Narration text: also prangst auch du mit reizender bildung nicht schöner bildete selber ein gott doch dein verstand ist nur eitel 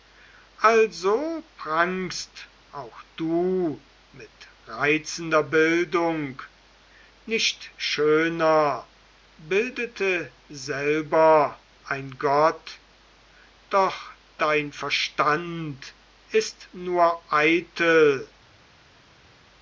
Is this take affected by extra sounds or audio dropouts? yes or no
no